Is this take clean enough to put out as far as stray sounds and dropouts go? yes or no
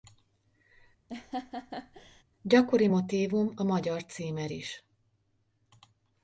no